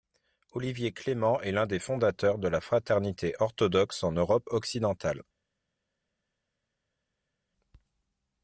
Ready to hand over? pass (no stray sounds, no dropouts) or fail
pass